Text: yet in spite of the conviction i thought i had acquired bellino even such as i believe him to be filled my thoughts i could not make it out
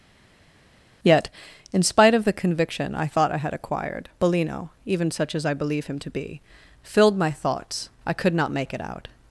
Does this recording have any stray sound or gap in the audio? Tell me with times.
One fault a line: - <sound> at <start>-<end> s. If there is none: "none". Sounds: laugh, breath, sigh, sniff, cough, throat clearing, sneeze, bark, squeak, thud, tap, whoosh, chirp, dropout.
none